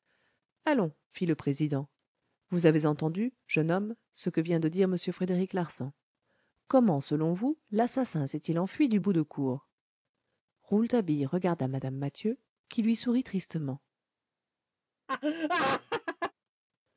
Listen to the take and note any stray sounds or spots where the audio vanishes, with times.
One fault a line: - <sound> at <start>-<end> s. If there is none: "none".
- laugh at 15.1-16.3 s